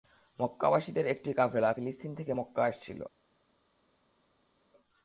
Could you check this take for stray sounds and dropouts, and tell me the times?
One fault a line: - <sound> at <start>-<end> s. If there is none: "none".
none